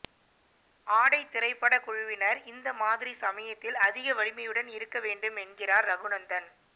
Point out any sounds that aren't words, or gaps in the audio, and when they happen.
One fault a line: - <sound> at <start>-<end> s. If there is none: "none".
none